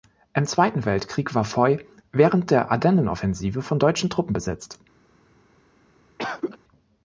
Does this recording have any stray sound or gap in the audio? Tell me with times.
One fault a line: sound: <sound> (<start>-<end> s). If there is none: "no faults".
sound: cough (6.2-6.6 s)